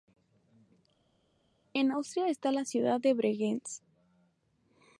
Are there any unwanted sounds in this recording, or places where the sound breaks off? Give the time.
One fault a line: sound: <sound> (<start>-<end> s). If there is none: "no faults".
no faults